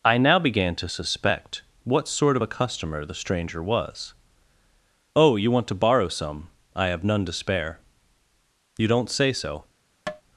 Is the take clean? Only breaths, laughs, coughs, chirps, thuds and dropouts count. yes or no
no